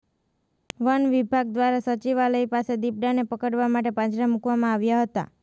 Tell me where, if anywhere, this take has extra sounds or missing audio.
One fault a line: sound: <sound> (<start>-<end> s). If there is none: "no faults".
no faults